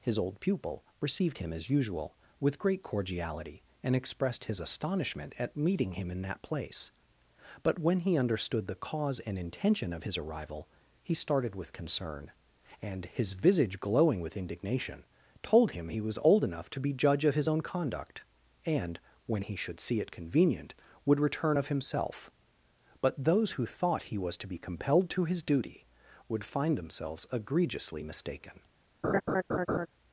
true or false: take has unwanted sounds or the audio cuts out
true